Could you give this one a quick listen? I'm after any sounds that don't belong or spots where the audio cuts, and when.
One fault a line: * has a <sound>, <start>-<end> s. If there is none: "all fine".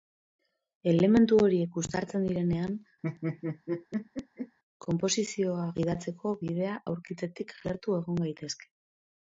* has a laugh, 3.0-4.6 s